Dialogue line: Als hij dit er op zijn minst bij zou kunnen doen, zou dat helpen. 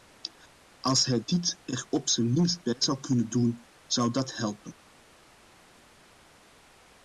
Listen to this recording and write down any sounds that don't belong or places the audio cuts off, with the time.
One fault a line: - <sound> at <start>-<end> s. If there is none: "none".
none